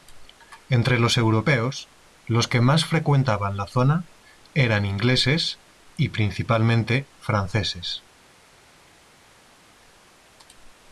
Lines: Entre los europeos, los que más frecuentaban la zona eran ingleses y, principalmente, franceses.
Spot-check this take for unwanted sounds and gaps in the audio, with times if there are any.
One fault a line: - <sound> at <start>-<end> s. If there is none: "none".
none